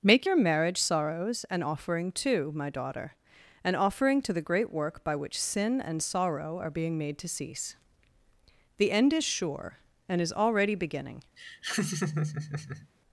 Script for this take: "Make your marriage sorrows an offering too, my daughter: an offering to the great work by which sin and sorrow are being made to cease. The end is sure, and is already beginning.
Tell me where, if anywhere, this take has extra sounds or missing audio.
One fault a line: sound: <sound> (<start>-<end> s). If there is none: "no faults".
sound: laugh (11.4-12.9 s)